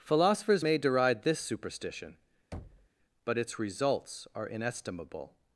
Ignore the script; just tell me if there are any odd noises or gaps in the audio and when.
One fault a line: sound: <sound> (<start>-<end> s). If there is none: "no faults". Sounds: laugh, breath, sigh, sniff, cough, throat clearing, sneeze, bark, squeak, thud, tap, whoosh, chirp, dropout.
sound: thud (2.5-2.9 s)